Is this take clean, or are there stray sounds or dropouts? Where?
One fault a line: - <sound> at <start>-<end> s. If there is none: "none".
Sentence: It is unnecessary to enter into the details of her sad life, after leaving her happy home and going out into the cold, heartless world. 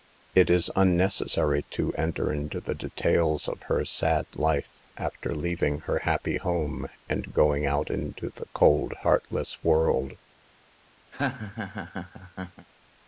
- laugh at 11.1-12.7 s